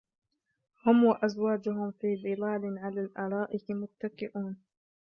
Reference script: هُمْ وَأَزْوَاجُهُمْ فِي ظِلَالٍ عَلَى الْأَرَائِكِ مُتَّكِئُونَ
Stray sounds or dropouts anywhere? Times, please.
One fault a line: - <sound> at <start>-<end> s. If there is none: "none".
none